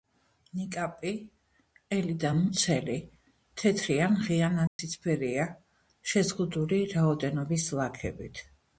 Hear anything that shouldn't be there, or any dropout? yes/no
yes